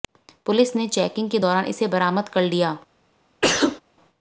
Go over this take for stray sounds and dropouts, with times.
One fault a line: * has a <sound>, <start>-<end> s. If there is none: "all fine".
* has a sneeze, 3.4-3.8 s